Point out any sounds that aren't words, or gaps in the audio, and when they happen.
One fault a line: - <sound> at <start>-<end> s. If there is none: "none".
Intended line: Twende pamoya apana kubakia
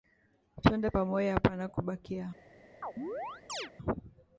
- chirp at 2.8-3.7 s